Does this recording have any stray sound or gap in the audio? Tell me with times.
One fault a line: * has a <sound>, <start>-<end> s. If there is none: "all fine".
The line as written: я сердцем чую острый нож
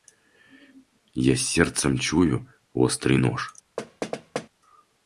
* has a thud, 3.8-4.5 s